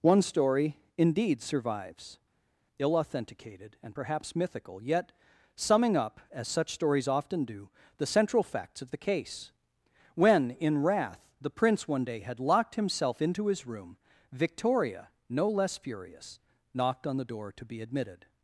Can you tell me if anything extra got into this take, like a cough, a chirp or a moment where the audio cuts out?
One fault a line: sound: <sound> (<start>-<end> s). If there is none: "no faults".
no faults